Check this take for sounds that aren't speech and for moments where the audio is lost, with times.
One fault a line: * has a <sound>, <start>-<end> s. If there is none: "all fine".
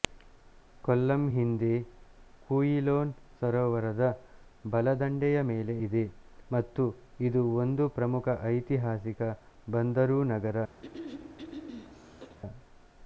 * has a throat clearing, 10.8-12.4 s